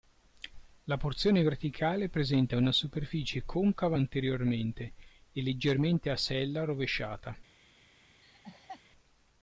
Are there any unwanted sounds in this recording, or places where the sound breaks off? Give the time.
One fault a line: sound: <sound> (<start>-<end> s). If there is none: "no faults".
sound: laugh (8.2-8.8 s)